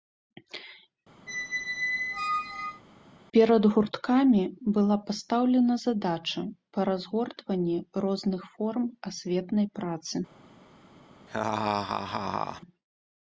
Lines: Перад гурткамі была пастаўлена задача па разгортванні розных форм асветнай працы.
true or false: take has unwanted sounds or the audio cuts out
true